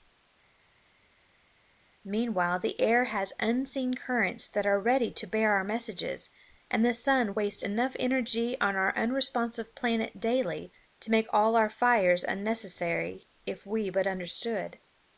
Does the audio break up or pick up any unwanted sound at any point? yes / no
no